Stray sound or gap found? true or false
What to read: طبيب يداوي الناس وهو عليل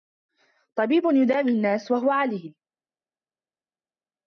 false